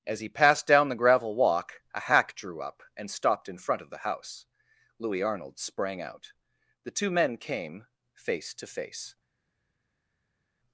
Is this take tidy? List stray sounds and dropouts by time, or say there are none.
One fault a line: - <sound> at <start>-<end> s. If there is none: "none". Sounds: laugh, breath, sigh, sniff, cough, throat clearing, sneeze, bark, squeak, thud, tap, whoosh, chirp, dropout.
none